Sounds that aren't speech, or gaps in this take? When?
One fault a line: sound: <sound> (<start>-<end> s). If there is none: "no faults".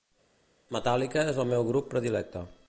no faults